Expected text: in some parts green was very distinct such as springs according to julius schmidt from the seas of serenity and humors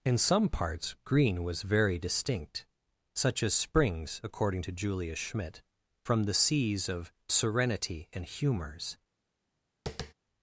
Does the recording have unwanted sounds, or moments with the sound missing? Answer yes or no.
yes